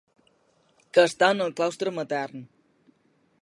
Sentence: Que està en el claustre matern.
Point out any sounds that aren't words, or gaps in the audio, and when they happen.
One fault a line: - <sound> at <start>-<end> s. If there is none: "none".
none